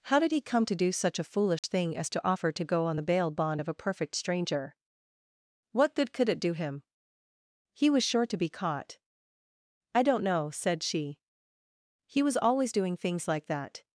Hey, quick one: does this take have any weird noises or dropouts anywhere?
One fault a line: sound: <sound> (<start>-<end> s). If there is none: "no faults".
sound: dropout (1.6-1.6 s)